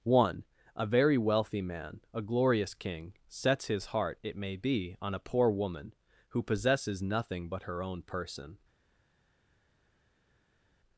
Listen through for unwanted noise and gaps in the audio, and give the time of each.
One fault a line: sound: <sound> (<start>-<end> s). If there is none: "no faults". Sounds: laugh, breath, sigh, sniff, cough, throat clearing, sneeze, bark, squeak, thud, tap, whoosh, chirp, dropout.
no faults